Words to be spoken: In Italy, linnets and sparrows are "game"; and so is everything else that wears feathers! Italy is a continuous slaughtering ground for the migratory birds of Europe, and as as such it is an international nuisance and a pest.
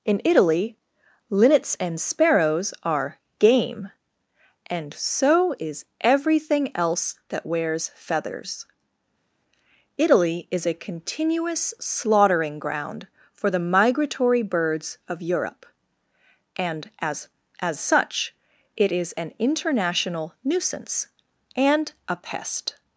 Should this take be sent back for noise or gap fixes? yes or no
no